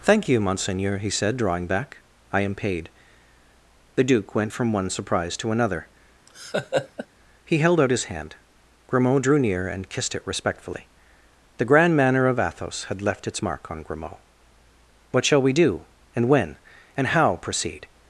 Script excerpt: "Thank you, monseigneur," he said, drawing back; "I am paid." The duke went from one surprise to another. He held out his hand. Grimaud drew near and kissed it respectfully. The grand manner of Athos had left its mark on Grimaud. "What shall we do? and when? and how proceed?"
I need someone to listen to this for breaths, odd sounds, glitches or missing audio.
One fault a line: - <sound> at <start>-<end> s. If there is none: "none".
- laugh at 6.3-7.1 s